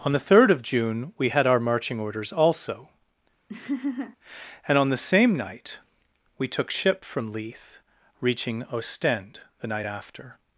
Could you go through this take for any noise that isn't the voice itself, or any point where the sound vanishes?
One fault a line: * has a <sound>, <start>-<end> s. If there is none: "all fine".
* has a laugh, 3.5-4.2 s